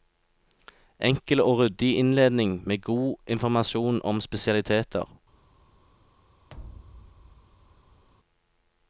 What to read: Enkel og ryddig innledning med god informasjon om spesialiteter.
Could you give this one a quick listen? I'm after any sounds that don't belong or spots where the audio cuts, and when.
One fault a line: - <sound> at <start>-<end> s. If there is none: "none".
- thud at 6.5-8.0 s